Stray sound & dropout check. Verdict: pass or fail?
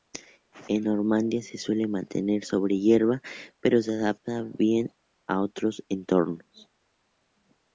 pass